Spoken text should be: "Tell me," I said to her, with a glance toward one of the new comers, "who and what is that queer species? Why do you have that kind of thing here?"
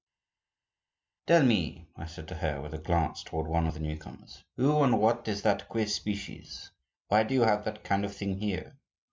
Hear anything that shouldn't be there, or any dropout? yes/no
no